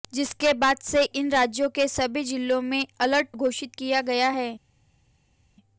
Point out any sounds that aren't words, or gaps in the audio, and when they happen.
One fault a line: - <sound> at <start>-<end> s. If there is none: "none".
none